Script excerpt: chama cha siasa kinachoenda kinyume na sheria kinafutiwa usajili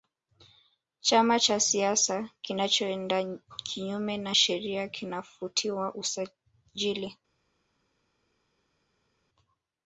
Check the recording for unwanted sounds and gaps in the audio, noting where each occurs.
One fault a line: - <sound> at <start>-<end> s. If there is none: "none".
none